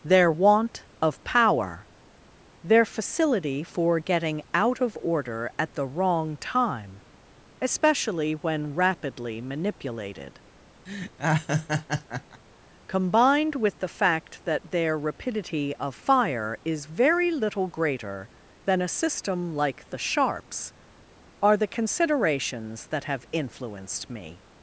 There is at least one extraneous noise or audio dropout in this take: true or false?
true